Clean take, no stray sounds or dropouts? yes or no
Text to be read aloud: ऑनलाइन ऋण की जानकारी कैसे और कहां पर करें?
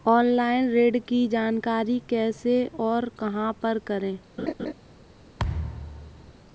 no